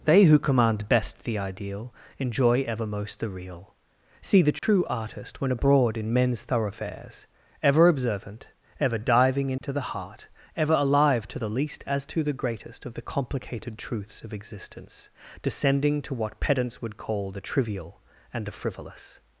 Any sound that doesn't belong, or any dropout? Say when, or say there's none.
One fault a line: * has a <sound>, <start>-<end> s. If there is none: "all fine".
* has a dropout, 4.6-4.6 s
* has a dropout, 9.6-9.6 s